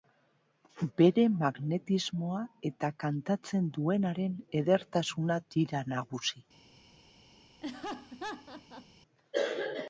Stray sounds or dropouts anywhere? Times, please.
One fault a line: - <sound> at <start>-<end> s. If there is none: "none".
- laugh at 7.6-8.9 s